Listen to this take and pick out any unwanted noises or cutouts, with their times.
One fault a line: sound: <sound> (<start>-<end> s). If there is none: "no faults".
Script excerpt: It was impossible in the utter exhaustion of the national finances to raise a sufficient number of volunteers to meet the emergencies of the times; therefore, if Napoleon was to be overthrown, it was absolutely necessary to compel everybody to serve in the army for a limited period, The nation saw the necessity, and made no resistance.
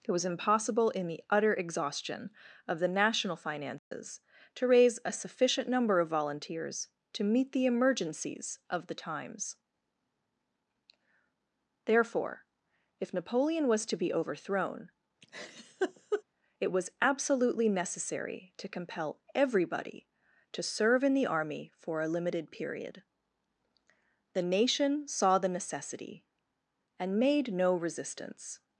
sound: dropout (3.8-3.9 s)
sound: laugh (15.2-16.2 s)